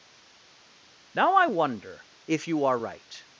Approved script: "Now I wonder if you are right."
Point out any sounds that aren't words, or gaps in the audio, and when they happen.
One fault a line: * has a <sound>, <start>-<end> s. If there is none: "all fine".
all fine